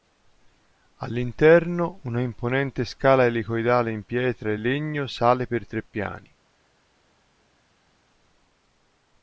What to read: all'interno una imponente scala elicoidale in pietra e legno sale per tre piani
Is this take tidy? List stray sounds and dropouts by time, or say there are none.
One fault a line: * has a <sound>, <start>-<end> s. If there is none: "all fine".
all fine